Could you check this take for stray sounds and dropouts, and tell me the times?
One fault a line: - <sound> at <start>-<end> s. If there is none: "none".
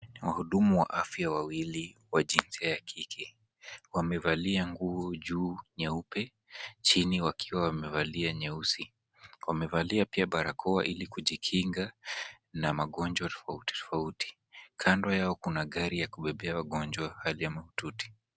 none